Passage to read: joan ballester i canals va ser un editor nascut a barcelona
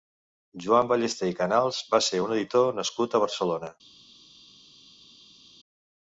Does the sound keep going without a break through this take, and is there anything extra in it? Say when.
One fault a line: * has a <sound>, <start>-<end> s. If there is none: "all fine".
all fine